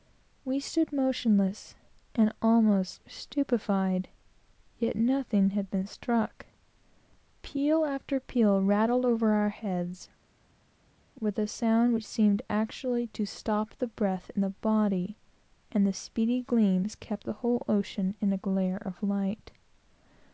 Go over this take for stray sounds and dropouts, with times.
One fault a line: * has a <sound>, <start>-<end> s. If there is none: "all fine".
all fine